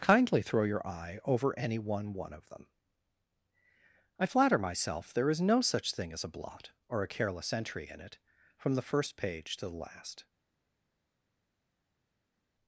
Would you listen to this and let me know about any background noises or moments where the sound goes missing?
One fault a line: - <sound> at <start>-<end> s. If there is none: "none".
none